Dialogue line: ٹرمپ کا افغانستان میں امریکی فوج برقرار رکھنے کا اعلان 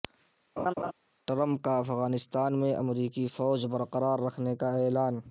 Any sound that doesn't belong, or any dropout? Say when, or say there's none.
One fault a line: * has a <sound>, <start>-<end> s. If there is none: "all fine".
* has a laugh, 0.6-0.9 s